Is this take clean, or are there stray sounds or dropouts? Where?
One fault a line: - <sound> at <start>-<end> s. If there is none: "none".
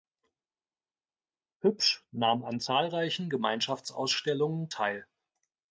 none